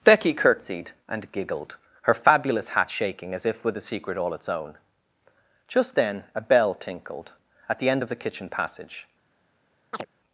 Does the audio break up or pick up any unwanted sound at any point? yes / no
yes